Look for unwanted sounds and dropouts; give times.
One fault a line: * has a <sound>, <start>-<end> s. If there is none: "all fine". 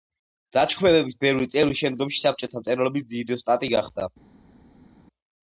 all fine